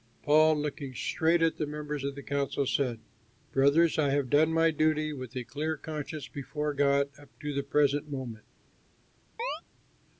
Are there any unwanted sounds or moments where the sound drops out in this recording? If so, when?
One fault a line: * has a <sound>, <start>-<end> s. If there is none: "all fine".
* has a chirp, 9.4-9.6 s